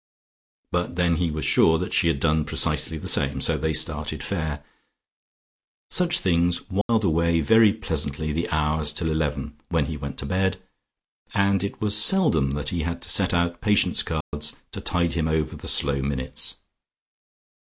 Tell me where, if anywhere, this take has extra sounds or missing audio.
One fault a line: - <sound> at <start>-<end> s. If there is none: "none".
- dropout at 6.8-6.9 s
- dropout at 14.2-14.3 s